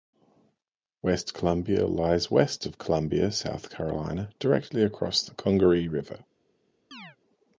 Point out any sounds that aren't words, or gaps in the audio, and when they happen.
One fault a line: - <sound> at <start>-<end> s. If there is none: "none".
- chirp at 6.9-7.2 s